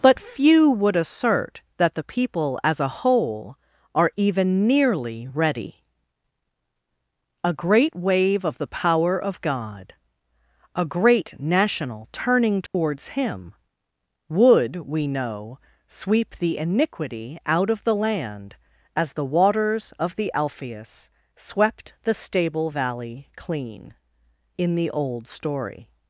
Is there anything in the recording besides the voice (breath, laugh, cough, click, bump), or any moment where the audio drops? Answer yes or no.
yes